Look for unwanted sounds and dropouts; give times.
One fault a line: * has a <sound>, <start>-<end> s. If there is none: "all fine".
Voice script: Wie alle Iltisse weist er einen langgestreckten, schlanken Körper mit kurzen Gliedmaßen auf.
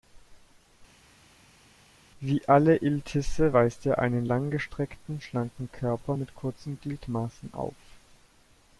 all fine